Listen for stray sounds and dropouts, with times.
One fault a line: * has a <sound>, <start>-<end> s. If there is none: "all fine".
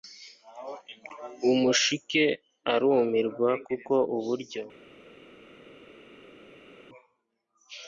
all fine